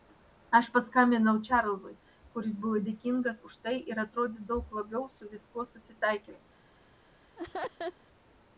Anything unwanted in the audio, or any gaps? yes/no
yes